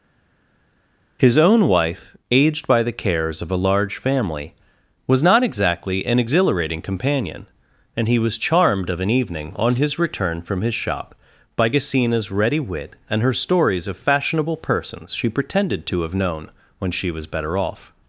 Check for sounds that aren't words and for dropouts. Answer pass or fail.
pass